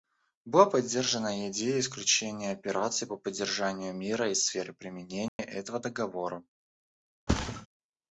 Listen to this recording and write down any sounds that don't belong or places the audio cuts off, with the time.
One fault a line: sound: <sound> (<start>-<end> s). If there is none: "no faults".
sound: dropout (5.3-5.4 s)
sound: thud (7.3-7.7 s)